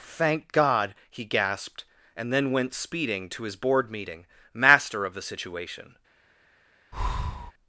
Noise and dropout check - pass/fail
fail